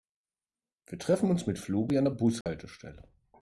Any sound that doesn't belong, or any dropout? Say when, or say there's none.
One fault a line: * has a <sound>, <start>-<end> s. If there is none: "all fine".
* has a dropout, 2.4-2.5 s